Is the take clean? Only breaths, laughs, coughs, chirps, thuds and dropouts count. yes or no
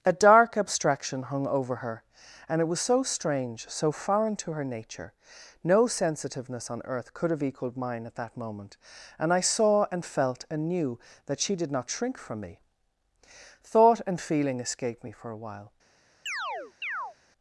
no